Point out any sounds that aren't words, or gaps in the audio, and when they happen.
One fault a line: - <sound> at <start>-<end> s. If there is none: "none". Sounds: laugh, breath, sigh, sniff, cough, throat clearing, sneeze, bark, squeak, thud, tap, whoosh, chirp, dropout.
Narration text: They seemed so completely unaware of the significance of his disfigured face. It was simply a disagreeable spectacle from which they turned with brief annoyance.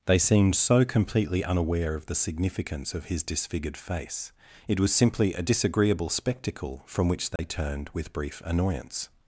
- dropout at 7.4-7.4 s